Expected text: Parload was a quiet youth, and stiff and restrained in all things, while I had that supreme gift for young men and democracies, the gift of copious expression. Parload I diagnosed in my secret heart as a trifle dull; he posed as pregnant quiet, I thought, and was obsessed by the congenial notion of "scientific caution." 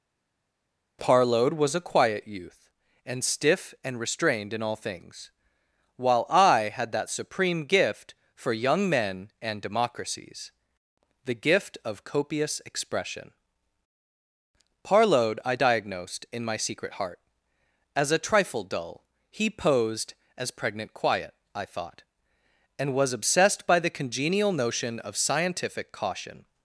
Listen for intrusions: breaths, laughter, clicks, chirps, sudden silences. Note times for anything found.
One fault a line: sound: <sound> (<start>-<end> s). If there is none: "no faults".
no faults